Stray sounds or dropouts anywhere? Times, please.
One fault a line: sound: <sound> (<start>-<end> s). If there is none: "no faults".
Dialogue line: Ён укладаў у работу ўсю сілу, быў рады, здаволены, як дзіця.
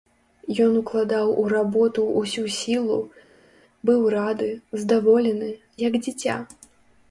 no faults